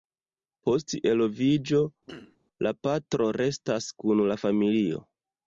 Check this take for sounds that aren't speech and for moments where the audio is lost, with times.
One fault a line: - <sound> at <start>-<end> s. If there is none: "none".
- throat clearing at 2.1-2.4 s